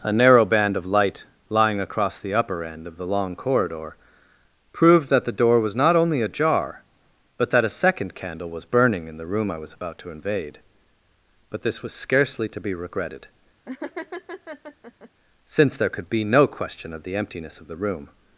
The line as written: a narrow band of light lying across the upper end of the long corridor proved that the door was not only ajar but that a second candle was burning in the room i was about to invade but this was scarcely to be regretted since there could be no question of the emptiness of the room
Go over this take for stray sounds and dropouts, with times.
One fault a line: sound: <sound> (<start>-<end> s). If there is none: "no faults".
sound: laugh (13.7-15.1 s)